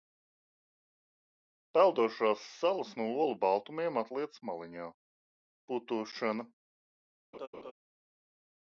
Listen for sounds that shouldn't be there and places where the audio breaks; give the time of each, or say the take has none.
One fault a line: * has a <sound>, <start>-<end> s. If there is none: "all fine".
* has a laugh, 7.3-7.7 s